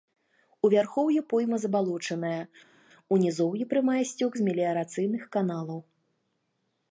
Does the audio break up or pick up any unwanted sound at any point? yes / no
no